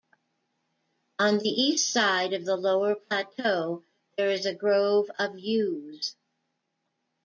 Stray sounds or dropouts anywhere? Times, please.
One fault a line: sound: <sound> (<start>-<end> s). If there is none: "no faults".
no faults